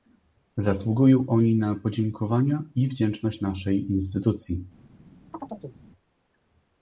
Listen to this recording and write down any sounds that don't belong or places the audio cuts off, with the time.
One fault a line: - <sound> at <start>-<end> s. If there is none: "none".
- chirp at 5.3-5.8 s